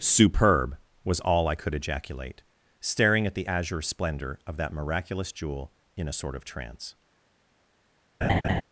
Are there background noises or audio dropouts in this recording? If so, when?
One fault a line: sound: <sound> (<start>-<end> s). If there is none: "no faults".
sound: laugh (8.2-8.6 s)